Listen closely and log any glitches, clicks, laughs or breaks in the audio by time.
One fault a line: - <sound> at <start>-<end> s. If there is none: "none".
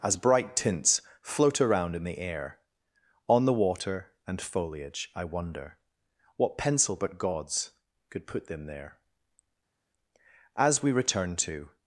none